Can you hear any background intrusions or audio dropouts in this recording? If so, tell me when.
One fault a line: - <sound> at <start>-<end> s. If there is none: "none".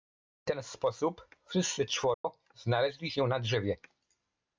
- dropout at 2.1-2.2 s